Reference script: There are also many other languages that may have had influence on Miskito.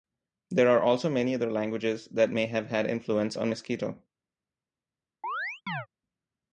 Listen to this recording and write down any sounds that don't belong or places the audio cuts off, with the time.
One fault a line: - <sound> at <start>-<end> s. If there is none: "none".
- chirp at 5.2-5.9 s